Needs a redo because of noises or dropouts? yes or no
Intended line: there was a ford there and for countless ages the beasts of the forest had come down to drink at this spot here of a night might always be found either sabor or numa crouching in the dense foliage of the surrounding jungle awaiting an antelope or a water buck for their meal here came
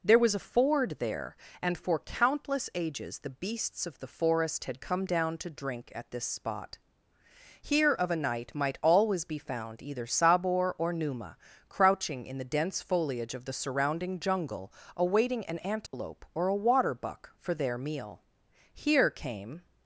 yes